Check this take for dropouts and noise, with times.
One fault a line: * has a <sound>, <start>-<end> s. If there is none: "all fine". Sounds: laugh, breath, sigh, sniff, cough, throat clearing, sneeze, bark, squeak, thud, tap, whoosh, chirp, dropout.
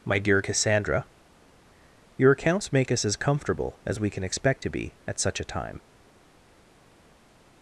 all fine